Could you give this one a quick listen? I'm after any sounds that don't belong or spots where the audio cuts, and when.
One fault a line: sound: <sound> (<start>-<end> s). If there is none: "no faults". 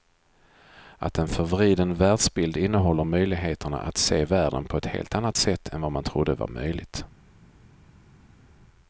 no faults